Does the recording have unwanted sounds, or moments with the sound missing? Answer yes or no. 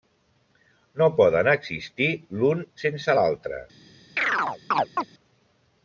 yes